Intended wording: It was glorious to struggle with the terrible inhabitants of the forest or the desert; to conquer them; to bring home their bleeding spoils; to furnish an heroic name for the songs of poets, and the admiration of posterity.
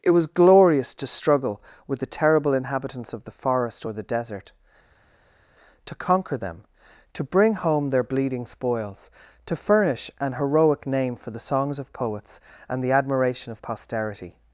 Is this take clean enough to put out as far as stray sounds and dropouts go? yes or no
yes